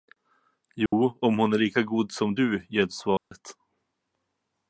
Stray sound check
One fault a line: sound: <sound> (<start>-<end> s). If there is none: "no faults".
sound: dropout (0.9-0.9 s)
sound: dropout (3.2-3.3 s)